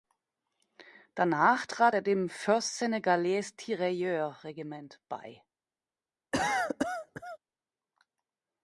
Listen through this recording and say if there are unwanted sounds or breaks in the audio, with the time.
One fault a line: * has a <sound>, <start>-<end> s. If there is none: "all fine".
* has a cough, 6.3-7.4 s